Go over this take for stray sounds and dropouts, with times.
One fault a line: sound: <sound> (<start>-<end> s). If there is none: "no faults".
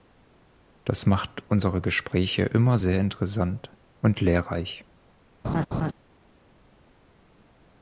sound: laugh (5.4-5.9 s)